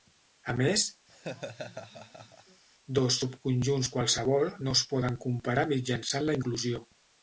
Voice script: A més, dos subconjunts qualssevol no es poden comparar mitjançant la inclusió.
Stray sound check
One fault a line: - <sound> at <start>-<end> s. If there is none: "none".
- laugh at 1.1-2.6 s